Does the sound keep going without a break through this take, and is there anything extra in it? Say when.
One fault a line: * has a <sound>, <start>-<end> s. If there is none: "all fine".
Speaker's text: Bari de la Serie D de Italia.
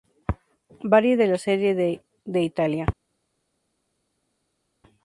all fine